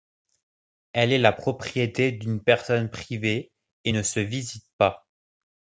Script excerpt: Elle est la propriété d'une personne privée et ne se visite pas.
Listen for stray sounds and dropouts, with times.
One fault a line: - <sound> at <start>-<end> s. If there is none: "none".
none